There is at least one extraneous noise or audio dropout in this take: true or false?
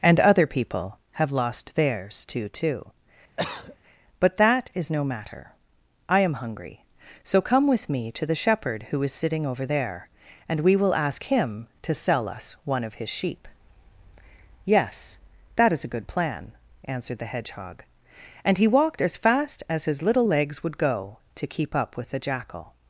true